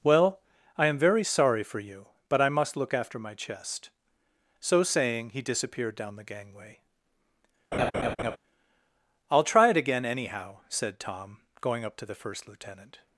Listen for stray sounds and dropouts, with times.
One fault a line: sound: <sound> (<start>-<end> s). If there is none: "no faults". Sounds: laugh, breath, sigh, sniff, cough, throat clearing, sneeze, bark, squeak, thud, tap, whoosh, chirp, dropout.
sound: laugh (7.7-8.4 s)